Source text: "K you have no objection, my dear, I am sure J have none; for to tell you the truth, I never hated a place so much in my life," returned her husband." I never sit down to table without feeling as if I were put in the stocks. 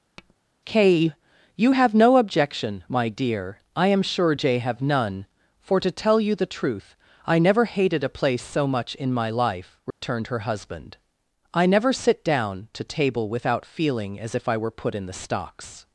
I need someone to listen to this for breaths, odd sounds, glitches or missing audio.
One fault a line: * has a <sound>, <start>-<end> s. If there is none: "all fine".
* has a tap, 0.2-0.4 s
* has a dropout, 9.9-10.0 s